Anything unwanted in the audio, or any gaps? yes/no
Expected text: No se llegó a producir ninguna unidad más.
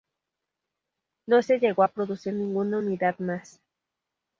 no